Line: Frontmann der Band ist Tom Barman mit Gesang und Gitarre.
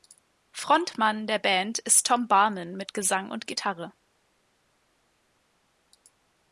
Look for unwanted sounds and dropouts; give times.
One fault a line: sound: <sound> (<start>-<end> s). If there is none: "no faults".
no faults